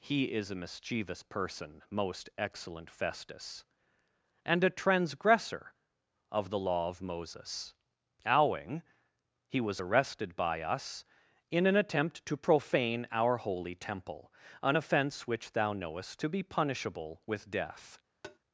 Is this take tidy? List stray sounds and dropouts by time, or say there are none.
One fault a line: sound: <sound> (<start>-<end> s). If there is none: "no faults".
sound: tap (18.2-18.4 s)